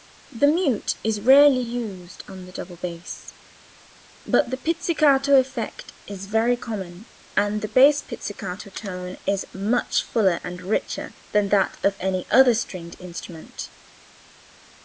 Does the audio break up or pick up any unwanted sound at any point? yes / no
no